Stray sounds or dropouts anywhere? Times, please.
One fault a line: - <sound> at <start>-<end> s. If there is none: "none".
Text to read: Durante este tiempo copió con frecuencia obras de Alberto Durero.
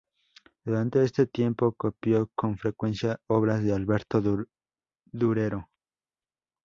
none